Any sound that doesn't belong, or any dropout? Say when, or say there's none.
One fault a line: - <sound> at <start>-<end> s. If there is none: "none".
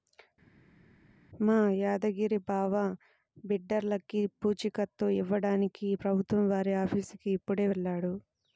none